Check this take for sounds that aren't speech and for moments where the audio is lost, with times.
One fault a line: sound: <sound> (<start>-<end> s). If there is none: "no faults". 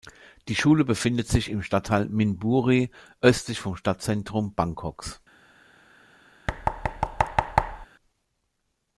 sound: thud (6.5-7.9 s)